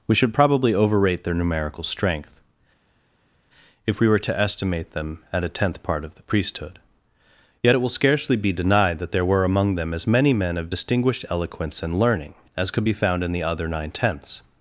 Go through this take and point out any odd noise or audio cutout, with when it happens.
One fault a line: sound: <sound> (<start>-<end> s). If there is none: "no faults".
no faults